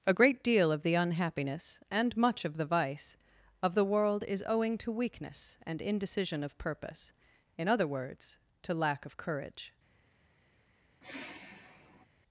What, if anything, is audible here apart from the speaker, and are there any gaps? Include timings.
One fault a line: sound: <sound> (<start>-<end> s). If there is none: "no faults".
sound: sigh (11.0-12.1 s)